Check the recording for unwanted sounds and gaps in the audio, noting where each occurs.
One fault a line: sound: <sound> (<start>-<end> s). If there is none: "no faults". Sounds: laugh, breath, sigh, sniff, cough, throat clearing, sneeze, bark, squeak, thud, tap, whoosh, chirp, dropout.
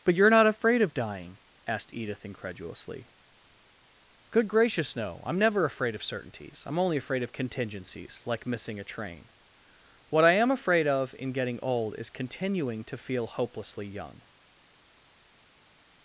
no faults